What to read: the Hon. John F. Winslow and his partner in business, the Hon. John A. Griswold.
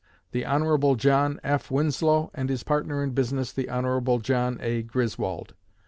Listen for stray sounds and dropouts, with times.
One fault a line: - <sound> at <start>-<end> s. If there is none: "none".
none